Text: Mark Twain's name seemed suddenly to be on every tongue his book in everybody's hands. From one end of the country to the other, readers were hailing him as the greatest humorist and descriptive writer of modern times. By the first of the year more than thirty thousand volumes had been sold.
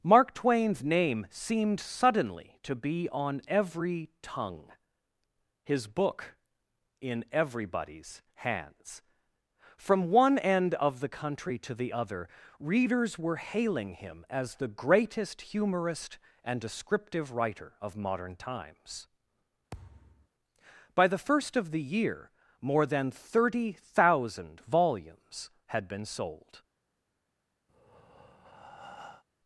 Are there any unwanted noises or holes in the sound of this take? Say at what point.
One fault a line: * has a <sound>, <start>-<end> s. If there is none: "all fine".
* has a thud, 19.7-20.3 s
* has a breath, 27.7-29.2 s